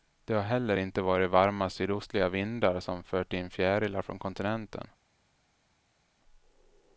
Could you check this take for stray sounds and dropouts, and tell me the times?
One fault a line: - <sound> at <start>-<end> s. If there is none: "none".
none